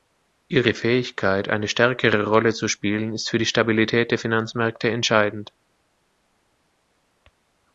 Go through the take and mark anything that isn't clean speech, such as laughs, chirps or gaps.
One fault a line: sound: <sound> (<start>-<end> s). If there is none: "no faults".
no faults